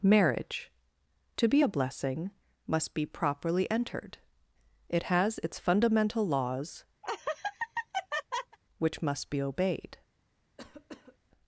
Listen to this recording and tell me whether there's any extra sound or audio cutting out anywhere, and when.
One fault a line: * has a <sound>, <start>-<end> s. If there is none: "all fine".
* has a laugh, 7.0-8.6 s
* has a cough, 10.6-11.2 s